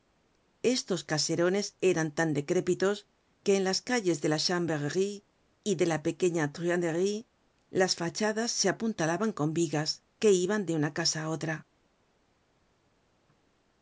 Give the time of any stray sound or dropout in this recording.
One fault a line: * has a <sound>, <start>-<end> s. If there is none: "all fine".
all fine